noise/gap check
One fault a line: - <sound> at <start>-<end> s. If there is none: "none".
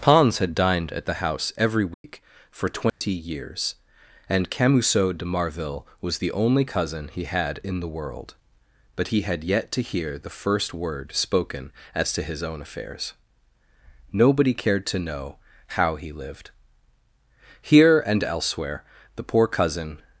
- dropout at 1.9-2.0 s
- dropout at 2.9-3.0 s